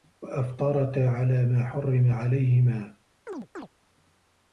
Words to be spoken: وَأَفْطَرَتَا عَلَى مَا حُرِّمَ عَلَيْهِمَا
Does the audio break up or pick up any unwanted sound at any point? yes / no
yes